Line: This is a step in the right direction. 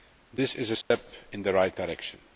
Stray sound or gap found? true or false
true